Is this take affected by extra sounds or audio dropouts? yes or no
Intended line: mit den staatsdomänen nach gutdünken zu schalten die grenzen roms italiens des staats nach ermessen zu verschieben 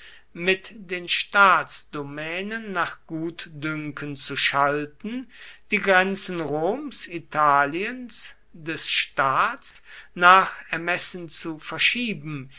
yes